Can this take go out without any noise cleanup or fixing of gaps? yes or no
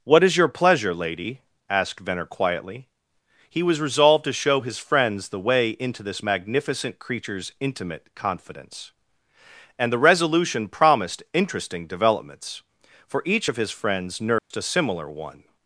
no